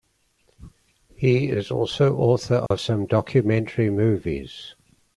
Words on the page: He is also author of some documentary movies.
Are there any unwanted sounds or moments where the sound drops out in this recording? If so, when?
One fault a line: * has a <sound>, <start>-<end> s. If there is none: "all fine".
* has a dropout, 2.7-2.7 s